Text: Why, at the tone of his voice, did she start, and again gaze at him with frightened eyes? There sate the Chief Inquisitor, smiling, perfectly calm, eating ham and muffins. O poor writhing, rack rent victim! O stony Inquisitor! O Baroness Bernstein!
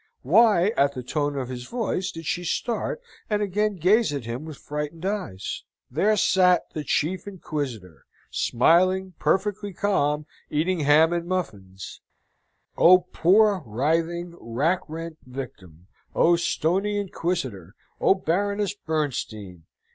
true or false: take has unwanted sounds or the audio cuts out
false